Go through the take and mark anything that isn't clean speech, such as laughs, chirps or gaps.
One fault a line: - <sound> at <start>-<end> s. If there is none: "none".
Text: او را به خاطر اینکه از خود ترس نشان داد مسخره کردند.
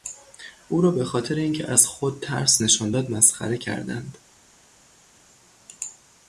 none